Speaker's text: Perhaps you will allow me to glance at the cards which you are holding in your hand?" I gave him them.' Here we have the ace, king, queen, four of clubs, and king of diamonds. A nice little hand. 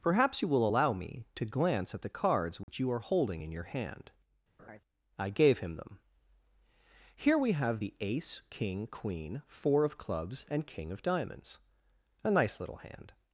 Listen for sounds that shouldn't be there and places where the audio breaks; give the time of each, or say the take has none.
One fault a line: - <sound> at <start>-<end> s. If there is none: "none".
- dropout at 2.6-2.7 s
- laugh at 4.6-4.8 s